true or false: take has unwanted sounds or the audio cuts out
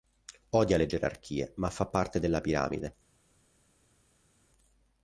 false